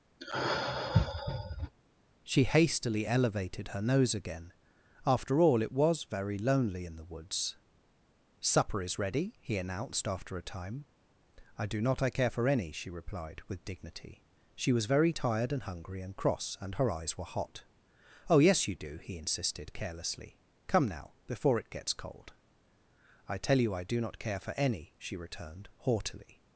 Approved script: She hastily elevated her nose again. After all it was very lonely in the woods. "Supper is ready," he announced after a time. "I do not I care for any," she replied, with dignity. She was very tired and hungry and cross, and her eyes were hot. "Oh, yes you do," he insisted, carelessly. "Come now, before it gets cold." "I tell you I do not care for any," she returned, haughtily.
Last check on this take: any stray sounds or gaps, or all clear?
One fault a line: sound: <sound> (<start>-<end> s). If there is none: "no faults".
sound: sigh (0.2-1.7 s)